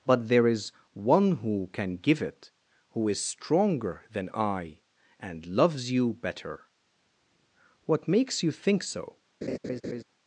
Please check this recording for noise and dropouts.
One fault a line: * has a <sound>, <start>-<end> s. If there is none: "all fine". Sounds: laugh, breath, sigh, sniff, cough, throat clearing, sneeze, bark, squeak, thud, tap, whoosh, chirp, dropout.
* has a laugh, 9.4-10.0 s